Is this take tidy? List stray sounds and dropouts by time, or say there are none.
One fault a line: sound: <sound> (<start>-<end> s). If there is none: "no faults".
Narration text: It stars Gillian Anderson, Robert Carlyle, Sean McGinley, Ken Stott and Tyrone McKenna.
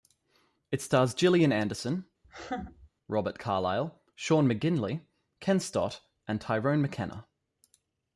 sound: laugh (2.2-2.9 s)